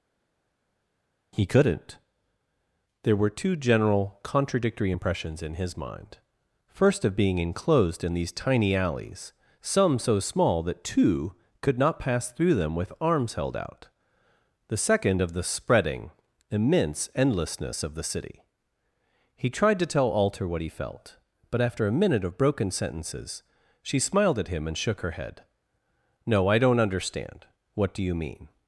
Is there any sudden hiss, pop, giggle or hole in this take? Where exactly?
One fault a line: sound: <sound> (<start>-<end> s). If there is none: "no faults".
no faults